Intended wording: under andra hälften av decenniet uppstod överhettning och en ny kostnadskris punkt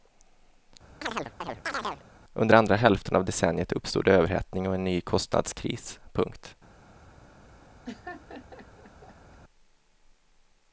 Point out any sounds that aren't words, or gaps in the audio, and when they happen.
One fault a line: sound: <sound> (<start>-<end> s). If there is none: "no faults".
sound: chirp (1.0-2.0 s)
sound: laugh (7.8-9.4 s)